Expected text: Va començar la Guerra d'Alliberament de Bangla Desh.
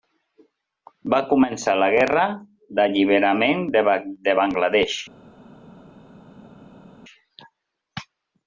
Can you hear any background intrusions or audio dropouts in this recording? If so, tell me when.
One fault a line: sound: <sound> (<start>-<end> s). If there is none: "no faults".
no faults